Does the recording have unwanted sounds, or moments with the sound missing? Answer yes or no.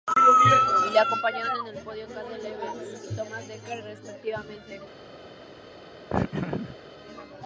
yes